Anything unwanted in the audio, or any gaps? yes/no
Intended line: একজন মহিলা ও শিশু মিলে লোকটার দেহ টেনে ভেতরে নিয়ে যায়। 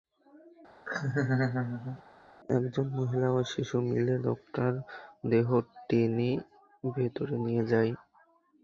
yes